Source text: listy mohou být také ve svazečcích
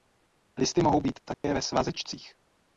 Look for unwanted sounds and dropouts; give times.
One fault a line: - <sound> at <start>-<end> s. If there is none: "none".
- dropout at 1.3-1.4 s